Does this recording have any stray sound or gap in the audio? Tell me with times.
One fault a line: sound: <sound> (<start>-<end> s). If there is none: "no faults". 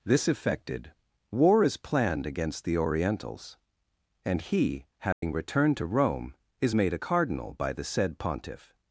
sound: dropout (5.1-5.2 s)